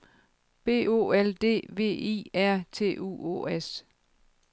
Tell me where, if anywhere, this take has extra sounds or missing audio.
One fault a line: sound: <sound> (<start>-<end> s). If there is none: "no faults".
no faults